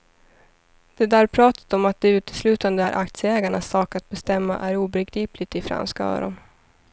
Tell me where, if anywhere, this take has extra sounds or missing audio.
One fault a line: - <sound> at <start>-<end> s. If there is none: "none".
none